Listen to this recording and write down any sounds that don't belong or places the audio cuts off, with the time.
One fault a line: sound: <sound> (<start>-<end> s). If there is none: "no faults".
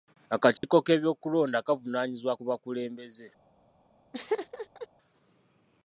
sound: dropout (0.6-0.6 s)
sound: laugh (4.1-4.9 s)